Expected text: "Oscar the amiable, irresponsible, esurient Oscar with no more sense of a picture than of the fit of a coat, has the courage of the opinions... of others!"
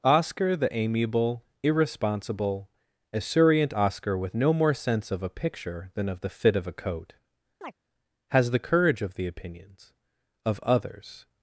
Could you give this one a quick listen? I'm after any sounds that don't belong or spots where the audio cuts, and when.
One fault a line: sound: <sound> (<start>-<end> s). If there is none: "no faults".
sound: chirp (7.6-7.7 s)